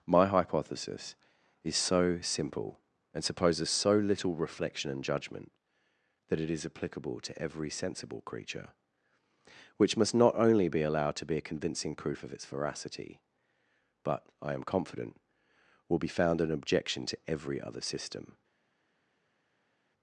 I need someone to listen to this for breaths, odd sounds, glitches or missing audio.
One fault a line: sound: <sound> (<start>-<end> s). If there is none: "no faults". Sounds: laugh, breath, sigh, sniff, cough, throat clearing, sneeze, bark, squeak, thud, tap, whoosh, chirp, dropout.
no faults